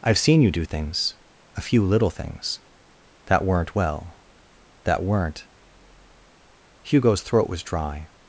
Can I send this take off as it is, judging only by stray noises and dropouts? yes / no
yes